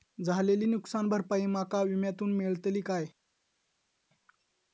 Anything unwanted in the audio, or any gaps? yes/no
no